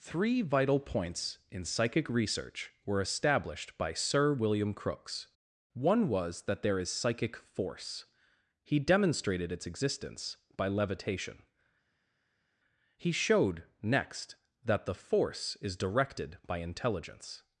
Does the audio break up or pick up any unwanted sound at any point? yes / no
no